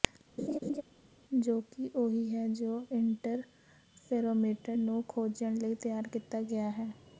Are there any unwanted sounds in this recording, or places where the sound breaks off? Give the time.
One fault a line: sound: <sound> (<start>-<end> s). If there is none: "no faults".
sound: laugh (0.4-0.8 s)